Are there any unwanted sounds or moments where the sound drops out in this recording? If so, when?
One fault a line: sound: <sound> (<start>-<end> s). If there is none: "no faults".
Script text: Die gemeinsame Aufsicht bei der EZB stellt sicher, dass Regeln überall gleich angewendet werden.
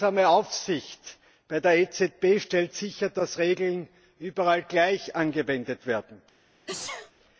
sound: sneeze (6.7-7.1 s)